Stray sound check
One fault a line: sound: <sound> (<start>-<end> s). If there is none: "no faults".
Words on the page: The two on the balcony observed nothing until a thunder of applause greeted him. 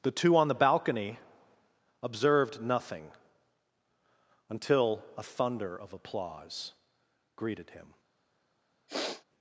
sound: sniff (8.9-9.2 s)